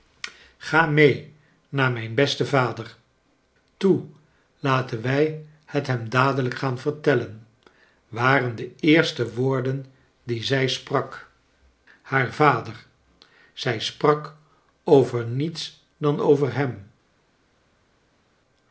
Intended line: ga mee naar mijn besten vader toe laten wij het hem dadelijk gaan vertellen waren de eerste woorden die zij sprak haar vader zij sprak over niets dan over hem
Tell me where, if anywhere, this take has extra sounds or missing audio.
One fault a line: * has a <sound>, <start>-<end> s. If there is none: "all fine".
all fine